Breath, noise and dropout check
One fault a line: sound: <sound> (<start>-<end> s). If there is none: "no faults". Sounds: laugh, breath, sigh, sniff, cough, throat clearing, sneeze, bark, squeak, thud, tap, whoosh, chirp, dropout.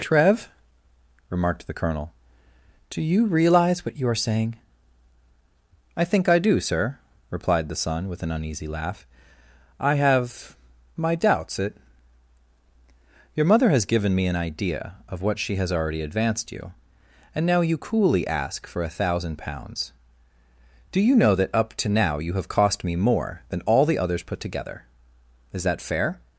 no faults